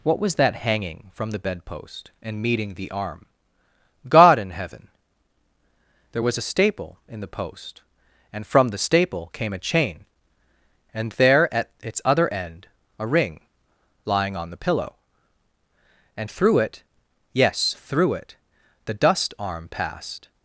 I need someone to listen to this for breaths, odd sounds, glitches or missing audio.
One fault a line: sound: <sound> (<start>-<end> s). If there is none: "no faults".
no faults